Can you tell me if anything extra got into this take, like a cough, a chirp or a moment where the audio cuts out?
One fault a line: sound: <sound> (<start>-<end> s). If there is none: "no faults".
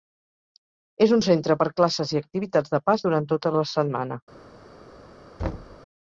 sound: thud (5.4-5.8 s)